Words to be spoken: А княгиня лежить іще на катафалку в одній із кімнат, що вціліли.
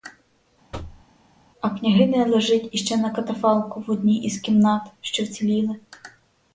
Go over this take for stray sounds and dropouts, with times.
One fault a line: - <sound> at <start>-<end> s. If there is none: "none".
- thud at 0.7-1.1 s